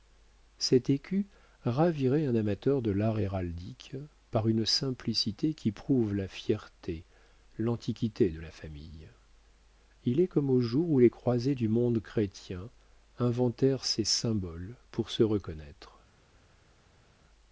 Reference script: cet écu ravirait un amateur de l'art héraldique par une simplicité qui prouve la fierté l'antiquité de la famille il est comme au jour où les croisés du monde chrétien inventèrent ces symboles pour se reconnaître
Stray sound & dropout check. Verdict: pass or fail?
pass